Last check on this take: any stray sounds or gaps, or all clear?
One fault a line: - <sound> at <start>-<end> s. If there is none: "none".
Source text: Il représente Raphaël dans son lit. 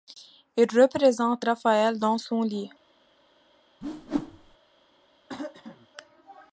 - whoosh at 3.8-4.6 s
- throat clearing at 5.3-5.9 s